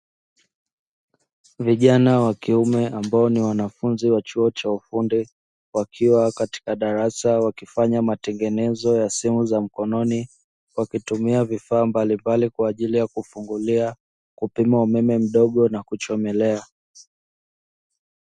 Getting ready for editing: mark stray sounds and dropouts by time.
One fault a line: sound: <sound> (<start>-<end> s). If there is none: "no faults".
no faults